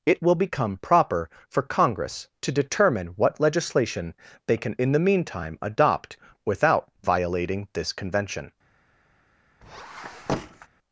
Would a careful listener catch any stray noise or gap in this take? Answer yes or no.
yes